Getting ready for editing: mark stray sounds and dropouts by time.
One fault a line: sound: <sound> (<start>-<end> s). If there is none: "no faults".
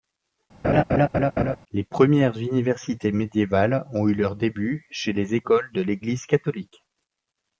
sound: laugh (0.6-1.6 s)